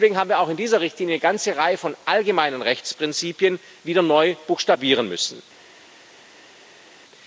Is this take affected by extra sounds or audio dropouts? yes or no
no